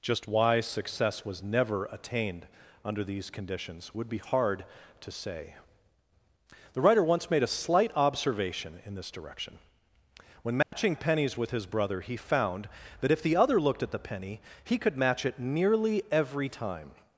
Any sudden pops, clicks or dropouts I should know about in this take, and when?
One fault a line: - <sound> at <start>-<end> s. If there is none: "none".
- dropout at 10.6-10.7 s